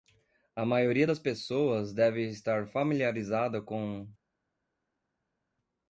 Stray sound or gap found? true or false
false